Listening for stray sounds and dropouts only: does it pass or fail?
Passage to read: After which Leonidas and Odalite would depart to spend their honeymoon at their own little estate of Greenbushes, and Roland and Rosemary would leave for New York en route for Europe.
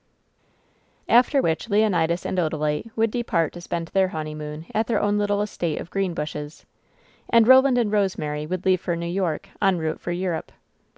pass